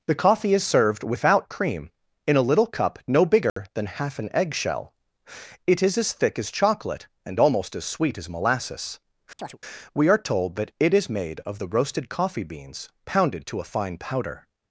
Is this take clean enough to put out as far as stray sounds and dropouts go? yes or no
no